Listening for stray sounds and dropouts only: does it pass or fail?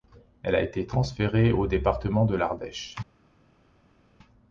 pass